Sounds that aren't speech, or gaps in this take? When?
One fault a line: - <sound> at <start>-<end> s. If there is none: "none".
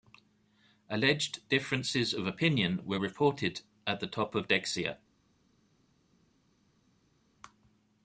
none